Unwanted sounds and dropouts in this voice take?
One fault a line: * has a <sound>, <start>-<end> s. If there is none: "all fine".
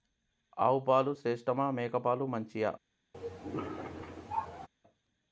* has a cough, 3.1-4.7 s